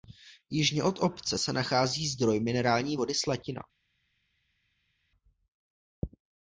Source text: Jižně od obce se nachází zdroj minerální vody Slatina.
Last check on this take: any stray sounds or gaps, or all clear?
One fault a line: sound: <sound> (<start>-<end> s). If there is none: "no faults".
no faults